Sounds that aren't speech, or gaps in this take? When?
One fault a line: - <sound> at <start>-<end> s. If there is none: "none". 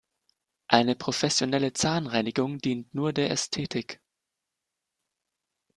none